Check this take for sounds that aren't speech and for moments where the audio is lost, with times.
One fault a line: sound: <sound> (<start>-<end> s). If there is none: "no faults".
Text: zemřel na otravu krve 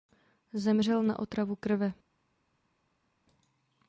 no faults